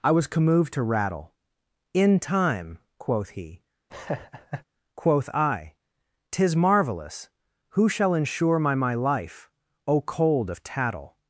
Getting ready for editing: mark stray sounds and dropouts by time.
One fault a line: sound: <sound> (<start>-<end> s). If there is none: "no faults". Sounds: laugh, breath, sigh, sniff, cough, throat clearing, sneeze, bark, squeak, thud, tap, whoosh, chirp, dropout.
sound: laugh (3.9-4.6 s)